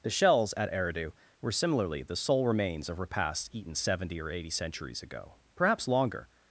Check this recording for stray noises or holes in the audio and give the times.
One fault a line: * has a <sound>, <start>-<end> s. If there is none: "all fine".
all fine